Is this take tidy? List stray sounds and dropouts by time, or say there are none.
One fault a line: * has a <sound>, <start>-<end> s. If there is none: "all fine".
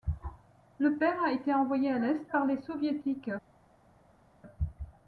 all fine